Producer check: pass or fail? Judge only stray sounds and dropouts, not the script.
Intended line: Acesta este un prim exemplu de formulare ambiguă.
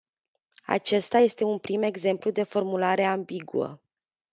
pass